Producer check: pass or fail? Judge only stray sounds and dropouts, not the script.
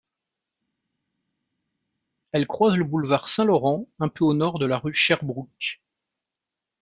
pass